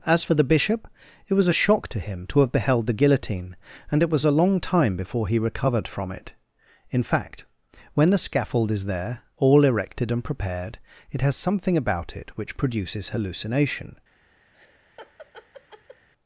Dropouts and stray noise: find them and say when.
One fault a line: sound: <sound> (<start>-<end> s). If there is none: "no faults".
sound: laugh (14.5-16.1 s)